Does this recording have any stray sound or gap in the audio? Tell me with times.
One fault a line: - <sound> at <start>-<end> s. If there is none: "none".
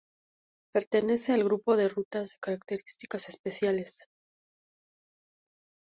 none